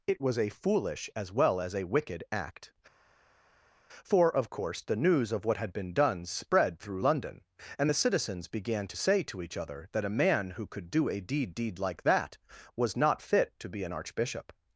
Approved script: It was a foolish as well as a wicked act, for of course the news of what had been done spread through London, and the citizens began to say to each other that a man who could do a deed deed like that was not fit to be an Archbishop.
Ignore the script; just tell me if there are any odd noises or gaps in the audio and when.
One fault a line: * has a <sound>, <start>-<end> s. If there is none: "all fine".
all fine